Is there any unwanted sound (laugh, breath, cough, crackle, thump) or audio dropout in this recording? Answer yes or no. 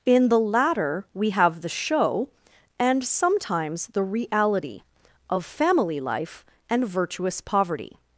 no